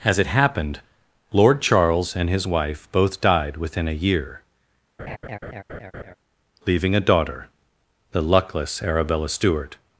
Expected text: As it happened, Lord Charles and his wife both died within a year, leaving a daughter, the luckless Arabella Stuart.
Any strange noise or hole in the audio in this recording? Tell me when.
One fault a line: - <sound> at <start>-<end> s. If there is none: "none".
- laugh at 5.0-6.2 s